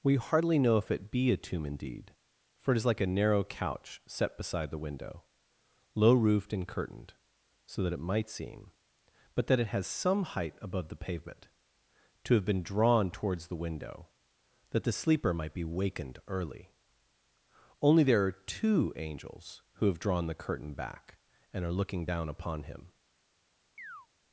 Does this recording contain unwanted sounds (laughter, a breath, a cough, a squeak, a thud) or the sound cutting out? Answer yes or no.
yes